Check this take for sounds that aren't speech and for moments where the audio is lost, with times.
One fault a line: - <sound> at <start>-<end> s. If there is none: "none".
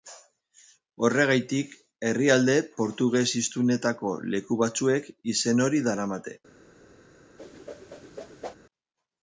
- whoosh at 7.4-8.6 s